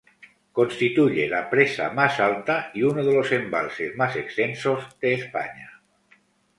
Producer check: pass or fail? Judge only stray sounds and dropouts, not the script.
pass